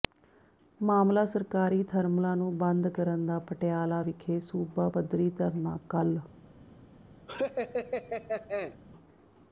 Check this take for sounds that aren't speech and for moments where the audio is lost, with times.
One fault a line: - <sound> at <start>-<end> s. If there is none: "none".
- laugh at 7.3-8.8 s